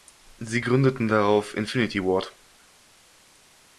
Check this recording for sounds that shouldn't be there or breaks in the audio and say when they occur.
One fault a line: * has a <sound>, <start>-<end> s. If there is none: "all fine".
all fine